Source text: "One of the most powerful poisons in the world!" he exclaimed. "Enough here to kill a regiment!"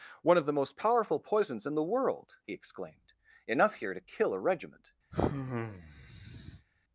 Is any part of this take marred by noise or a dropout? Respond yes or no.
yes